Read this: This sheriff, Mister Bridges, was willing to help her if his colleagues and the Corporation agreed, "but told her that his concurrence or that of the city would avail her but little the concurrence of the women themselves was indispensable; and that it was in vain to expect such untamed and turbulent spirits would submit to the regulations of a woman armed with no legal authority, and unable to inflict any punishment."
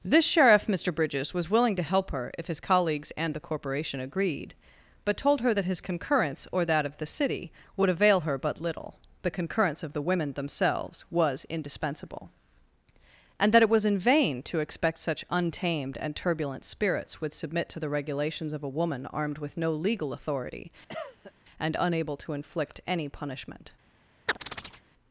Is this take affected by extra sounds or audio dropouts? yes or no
yes